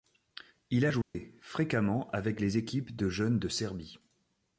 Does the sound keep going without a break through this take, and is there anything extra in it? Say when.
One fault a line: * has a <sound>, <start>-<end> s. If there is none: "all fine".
* has a dropout, 1.0-1.1 s